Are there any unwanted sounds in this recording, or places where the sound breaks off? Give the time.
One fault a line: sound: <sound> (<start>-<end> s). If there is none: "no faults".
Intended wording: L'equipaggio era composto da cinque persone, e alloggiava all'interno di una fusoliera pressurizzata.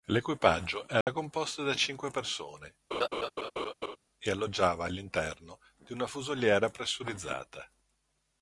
sound: dropout (1.0-1.1 s)
sound: laugh (2.9-4.0 s)